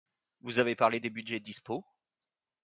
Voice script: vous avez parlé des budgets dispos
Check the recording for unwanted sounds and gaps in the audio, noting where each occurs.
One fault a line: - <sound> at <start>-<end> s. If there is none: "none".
none